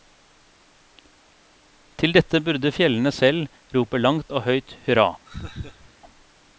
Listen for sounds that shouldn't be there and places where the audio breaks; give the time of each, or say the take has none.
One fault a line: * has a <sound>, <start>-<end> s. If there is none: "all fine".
* has a laugh, 5.3-5.9 s